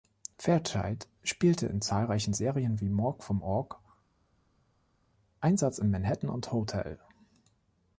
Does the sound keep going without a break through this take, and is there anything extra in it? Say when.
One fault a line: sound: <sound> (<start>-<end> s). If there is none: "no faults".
no faults